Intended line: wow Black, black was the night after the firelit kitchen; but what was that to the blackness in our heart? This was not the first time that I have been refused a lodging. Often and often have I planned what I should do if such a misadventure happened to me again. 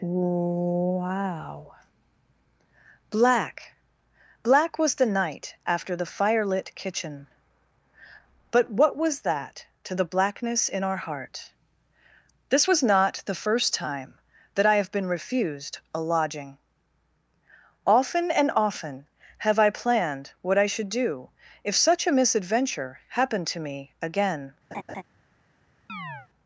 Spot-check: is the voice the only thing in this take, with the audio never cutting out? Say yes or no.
no